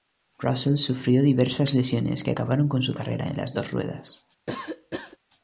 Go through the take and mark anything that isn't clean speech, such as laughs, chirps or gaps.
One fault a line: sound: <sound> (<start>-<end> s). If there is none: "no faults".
sound: cough (4.5-5.2 s)